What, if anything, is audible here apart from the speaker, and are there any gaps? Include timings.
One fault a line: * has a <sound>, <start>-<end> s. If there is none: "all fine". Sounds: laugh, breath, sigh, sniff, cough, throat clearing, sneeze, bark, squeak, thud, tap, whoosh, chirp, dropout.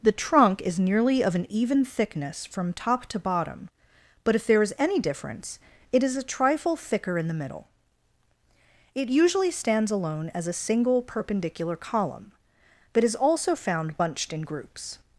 all fine